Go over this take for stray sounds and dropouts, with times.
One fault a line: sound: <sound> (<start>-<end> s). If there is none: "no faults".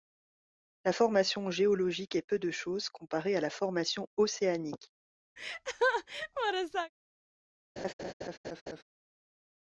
sound: laugh (5.4-6.9 s)
sound: laugh (7.8-8.8 s)